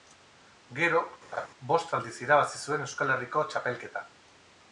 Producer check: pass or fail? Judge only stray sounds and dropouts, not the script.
fail